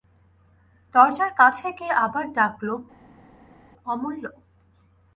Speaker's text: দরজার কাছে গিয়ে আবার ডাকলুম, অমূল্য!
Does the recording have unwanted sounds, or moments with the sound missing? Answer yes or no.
no